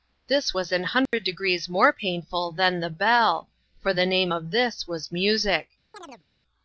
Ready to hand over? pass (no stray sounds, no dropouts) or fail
fail